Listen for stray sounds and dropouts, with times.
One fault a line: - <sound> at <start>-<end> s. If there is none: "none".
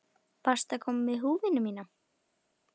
none